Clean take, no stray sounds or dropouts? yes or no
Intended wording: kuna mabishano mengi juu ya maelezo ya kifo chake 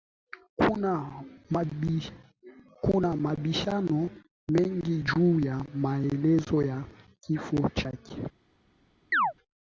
no